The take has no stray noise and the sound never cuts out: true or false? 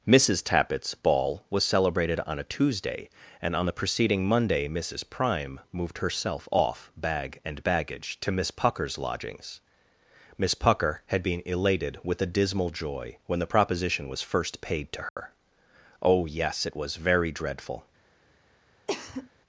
false